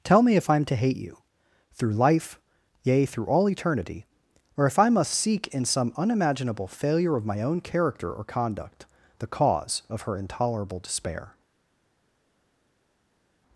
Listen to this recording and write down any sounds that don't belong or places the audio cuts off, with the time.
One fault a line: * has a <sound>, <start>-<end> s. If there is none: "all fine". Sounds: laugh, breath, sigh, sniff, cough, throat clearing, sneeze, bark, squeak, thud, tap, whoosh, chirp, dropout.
all fine